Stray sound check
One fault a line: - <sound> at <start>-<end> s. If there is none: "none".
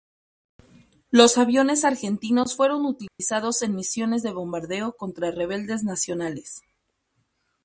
- dropout at 3.1-3.2 s